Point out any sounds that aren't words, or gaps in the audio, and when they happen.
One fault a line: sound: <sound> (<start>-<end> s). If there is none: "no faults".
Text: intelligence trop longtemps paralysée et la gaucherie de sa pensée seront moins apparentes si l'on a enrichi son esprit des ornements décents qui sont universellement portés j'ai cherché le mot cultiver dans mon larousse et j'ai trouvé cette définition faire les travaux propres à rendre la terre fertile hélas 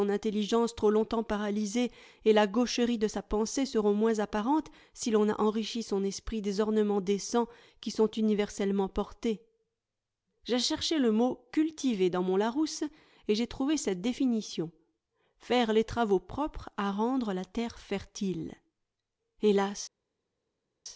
no faults